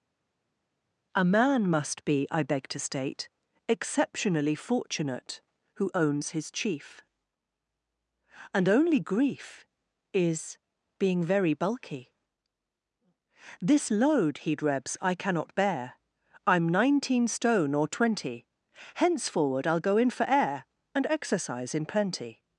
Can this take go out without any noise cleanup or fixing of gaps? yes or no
yes